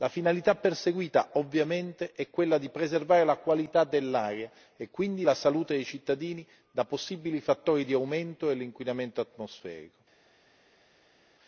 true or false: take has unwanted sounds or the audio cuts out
false